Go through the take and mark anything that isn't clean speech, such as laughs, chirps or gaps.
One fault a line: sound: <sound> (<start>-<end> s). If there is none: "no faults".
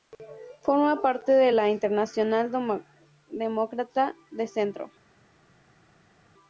no faults